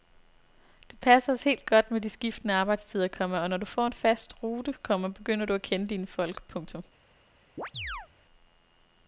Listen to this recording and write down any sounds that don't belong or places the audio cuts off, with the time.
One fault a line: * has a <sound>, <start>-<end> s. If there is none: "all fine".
* has a chirp, 7.6-8.1 s